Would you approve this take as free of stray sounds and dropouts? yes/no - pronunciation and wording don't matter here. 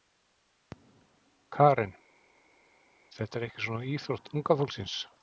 yes